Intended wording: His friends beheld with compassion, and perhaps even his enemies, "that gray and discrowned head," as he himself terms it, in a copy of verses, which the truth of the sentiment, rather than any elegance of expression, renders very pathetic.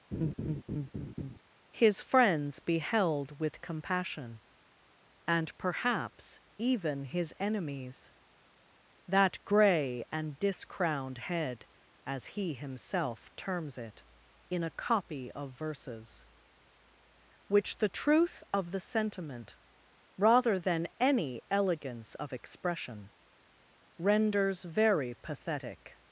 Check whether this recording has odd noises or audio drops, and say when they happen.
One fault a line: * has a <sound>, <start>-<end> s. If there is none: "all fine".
* has a laugh, 0.1-1.4 s